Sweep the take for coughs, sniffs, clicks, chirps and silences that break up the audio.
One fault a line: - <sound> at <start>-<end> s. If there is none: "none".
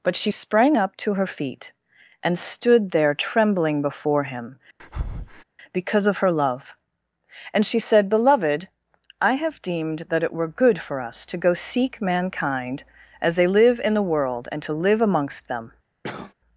- breath at 4.8-5.4 s
- cough at 16.0-16.3 s